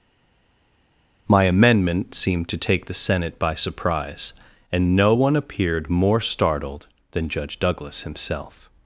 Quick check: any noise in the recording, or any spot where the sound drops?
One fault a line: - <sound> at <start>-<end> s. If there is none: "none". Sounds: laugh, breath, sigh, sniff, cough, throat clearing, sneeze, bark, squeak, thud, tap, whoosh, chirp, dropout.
none